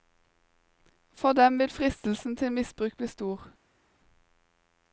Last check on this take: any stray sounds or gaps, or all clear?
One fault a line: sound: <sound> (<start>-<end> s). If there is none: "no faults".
no faults